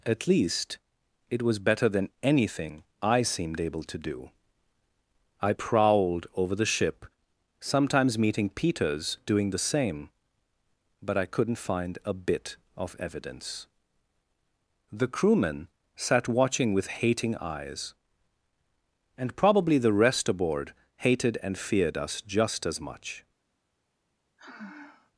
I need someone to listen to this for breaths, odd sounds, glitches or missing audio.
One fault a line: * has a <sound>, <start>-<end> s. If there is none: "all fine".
* has a sigh, 24.4-25.1 s